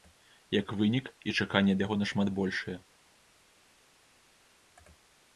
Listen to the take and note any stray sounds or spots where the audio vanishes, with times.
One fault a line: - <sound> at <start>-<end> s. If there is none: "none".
none